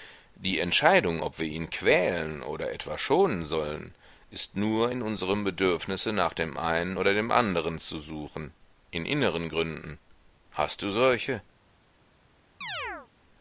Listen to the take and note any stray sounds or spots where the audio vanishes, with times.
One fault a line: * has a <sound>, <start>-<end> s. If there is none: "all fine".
* has a chirp, 12.6-13.1 s